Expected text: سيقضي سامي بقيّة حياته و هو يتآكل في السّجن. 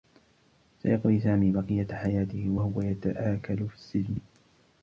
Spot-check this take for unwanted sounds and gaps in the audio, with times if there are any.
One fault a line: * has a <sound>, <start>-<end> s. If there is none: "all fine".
all fine